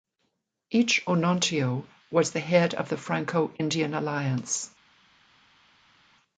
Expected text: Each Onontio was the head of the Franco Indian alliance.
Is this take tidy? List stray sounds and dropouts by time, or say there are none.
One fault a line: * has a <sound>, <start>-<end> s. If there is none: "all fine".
all fine